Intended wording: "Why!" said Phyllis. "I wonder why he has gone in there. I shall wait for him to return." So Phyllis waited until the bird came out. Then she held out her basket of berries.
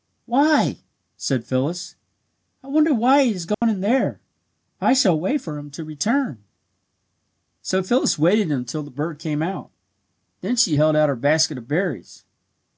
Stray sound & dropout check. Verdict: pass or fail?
fail